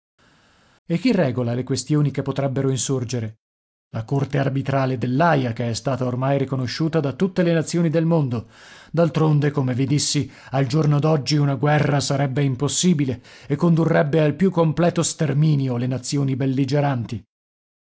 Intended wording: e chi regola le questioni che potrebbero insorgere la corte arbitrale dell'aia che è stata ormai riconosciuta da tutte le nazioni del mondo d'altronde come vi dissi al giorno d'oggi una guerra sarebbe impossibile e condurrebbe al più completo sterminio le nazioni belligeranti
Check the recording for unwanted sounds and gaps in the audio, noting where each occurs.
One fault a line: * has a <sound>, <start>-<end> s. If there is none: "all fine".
all fine